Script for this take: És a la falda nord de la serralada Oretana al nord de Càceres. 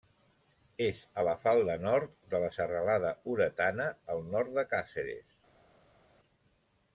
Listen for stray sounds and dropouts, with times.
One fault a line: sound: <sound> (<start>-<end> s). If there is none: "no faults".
no faults